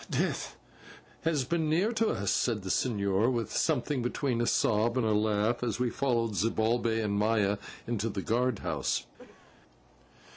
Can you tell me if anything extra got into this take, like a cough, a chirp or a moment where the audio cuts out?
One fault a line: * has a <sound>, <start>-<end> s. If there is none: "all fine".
* has a cough, 9.2-9.6 s